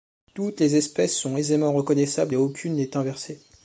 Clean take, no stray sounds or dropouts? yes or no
yes